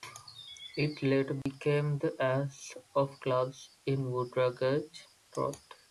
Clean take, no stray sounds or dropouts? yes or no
no